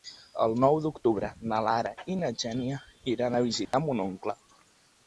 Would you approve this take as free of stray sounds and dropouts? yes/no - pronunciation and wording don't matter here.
no